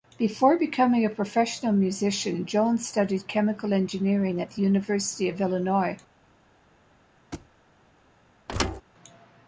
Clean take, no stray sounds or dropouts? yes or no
no